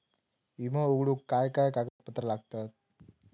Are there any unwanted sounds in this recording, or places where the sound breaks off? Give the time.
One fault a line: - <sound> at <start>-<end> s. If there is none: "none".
- dropout at 1.9-2.0 s